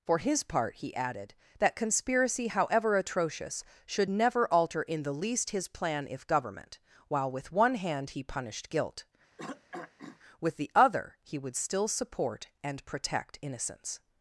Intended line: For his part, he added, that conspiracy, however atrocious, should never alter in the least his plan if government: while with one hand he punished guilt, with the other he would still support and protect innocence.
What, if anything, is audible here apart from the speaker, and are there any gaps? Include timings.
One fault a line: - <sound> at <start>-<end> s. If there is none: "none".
- throat clearing at 9.4-10.2 s